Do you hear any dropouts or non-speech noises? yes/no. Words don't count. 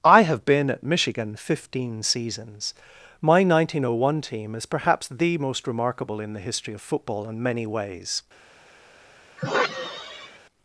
yes